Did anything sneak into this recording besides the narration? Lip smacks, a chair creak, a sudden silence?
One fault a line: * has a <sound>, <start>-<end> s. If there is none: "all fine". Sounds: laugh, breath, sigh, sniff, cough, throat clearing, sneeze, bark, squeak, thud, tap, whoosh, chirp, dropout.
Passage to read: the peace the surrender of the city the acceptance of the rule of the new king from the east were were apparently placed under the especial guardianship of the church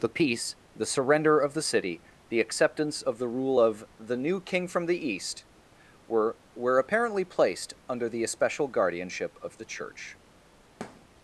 * has a thud, 10.8-11.1 s